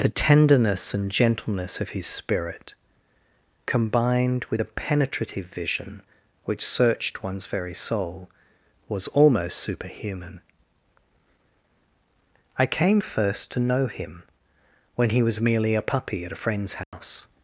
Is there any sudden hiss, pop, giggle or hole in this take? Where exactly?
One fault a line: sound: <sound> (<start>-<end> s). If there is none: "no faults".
sound: dropout (16.8-16.9 s)